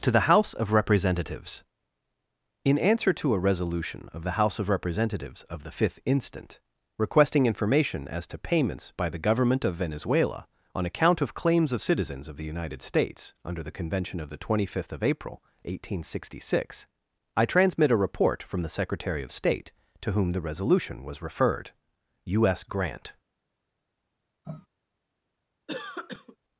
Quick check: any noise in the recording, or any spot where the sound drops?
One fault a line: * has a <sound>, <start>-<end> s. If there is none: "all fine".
* has a sniff, 24.4-24.7 s
* has a cough, 25.7-26.4 s